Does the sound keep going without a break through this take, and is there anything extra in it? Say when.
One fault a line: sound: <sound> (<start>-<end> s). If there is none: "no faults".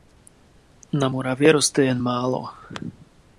no faults